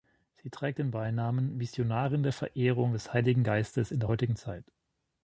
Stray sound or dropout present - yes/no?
no